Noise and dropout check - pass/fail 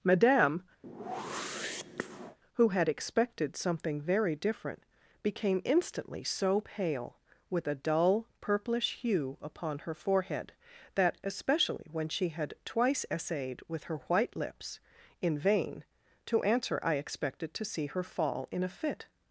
fail